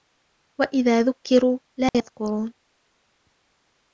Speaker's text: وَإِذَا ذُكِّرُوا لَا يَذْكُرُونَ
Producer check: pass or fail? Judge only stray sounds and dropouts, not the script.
fail